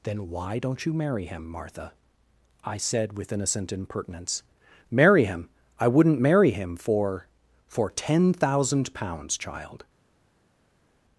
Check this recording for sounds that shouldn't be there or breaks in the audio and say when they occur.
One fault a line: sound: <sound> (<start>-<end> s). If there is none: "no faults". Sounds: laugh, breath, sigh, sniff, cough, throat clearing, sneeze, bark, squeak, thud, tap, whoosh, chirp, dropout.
no faults